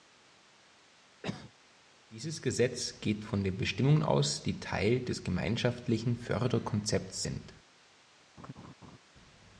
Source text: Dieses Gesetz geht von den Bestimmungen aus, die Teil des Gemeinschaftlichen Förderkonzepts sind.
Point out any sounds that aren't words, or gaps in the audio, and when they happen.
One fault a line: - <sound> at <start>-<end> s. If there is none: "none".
- cough at 1.2-1.5 s
- laugh at 8.4-9.0 s